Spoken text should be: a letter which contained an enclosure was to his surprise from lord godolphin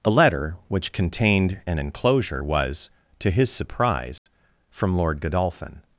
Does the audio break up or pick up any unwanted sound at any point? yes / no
yes